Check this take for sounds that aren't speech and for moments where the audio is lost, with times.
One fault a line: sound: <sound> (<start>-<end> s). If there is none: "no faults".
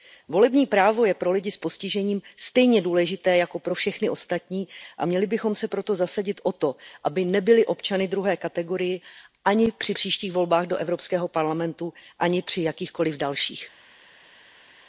no faults